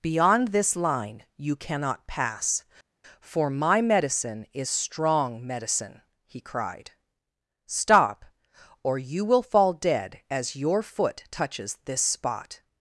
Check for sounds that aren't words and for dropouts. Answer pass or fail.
pass